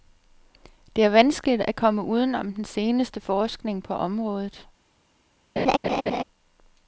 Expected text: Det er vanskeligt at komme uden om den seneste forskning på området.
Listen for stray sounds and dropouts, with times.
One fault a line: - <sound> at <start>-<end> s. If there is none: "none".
- laugh at 5.6-6.2 s